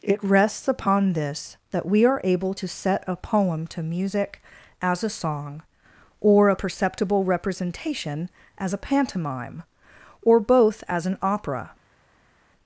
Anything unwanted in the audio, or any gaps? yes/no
no